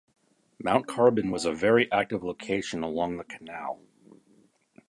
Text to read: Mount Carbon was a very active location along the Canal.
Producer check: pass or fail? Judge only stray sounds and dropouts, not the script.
pass